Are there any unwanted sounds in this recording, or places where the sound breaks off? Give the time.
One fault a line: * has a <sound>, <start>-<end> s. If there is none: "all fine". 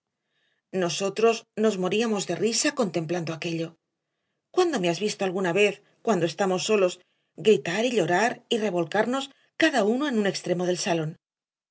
all fine